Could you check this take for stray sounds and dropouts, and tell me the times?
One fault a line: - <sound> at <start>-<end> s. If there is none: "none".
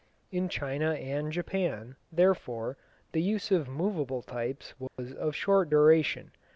- dropout at 4.9-5.0 s